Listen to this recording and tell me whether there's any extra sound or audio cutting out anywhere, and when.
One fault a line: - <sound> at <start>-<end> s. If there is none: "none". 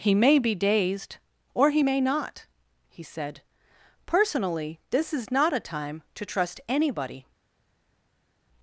none